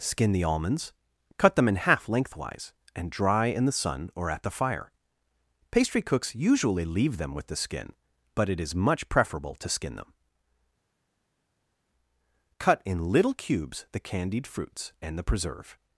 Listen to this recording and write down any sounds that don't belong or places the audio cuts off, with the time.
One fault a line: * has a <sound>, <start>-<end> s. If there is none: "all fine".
all fine